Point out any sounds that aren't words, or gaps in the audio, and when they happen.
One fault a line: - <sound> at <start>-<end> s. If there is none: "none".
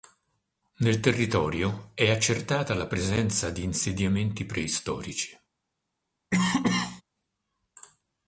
- cough at 6.3-7.0 s